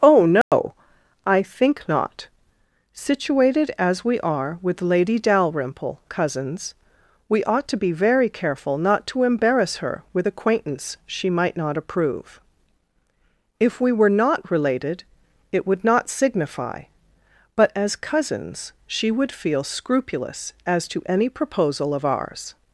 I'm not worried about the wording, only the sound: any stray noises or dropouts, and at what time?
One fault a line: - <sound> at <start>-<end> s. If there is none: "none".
- dropout at 0.4-0.5 s